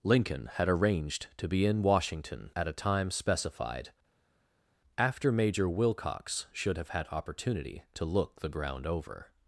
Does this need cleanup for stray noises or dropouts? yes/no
no